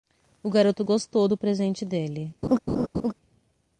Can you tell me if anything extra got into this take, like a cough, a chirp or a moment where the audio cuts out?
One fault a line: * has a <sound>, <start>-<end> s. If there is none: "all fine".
* has a laugh, 2.4-3.1 s